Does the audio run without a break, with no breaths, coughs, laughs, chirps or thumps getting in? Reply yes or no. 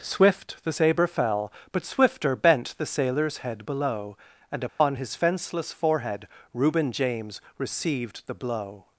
no